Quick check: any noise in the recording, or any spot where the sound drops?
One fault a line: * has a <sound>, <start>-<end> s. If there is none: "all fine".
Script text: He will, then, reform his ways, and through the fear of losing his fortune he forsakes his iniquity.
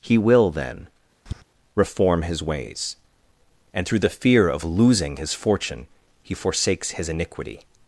* has a tap, 1.3-1.4 s